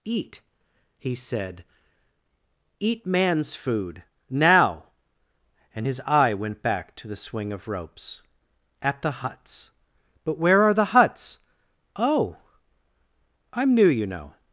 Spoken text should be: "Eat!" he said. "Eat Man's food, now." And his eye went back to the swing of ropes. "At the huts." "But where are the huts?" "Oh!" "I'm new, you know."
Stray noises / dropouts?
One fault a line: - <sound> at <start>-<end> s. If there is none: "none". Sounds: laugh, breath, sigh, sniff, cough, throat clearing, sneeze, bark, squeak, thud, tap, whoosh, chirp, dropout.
none